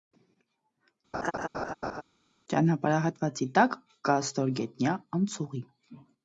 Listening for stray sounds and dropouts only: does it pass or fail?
fail